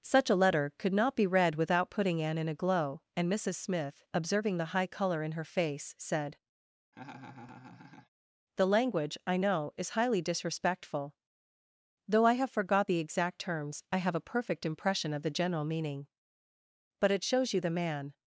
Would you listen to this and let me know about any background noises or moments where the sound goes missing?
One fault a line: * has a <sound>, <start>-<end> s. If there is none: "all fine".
* has a laugh, 6.9-8.1 s